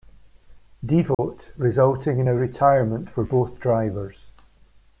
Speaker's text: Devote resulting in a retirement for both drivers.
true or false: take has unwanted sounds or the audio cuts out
true